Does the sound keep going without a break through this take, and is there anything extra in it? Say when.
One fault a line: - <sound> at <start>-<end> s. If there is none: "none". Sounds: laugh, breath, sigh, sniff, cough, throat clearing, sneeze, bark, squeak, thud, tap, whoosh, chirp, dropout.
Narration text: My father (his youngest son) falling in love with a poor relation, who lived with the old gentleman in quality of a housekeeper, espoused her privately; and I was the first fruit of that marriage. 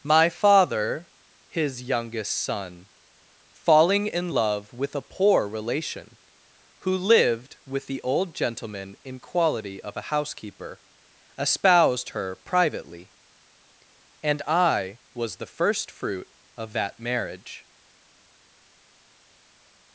none